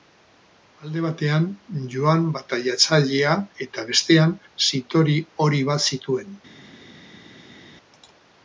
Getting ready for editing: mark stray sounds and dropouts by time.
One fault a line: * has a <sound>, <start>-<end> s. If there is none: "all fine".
all fine